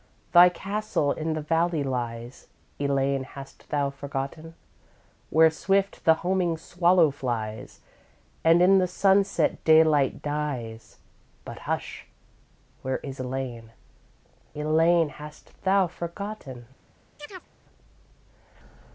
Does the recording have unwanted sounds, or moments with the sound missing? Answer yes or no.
yes